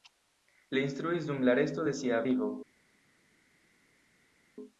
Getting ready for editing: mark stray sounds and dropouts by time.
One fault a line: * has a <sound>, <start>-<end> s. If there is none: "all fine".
all fine